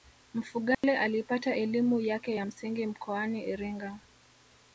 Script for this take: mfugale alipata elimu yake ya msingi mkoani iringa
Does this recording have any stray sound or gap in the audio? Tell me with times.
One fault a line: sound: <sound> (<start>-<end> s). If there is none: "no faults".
sound: dropout (0.7-0.8 s)